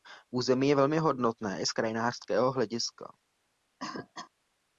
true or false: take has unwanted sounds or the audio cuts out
true